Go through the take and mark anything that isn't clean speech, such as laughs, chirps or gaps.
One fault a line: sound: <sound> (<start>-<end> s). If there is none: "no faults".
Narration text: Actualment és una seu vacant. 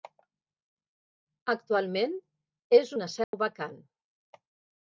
sound: dropout (3.2-3.3 s)